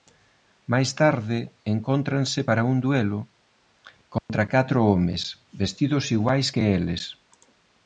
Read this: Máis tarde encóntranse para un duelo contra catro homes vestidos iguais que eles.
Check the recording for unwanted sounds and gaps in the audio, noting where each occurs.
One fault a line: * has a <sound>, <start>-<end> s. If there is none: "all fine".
* has a dropout, 4.2-4.3 s